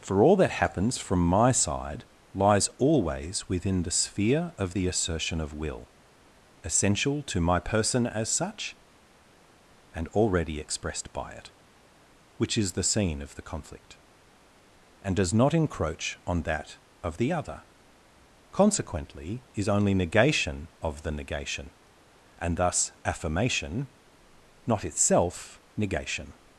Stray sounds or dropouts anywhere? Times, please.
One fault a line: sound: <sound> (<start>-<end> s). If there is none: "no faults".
no faults